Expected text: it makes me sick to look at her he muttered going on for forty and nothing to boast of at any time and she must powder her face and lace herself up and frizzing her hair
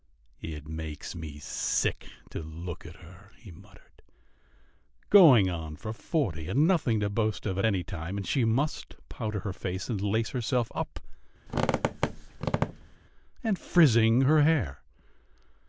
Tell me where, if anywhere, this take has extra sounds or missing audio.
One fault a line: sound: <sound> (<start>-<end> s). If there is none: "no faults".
sound: squeak (11.5-13.0 s)